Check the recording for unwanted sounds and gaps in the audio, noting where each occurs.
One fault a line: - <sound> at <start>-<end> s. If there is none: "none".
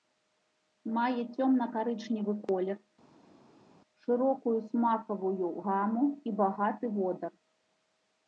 none